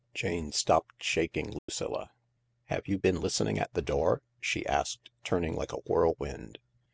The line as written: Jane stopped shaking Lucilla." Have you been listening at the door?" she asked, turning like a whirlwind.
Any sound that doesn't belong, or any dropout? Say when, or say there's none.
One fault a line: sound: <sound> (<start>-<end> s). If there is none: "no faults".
sound: dropout (1.6-1.7 s)